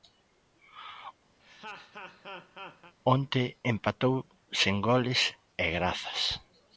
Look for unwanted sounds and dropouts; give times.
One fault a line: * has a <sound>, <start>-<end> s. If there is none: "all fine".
* has a laugh, 1.4-2.9 s